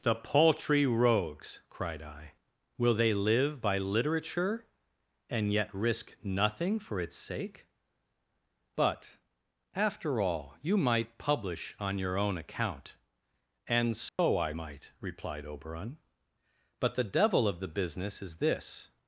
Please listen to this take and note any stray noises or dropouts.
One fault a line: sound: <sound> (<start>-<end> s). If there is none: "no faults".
sound: dropout (14.1-14.2 s)